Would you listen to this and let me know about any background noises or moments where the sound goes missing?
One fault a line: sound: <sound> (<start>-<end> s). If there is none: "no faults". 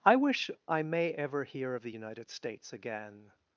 no faults